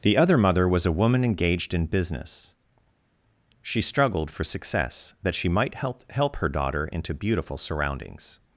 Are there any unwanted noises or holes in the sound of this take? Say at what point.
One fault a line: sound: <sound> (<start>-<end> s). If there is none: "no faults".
no faults